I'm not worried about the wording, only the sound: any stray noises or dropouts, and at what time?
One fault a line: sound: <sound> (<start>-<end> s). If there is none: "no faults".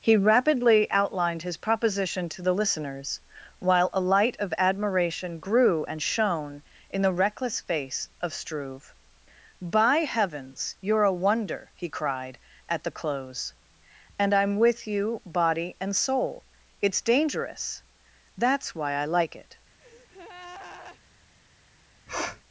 sound: breath (19.8-21.0 s)
sound: sniff (22.1-22.4 s)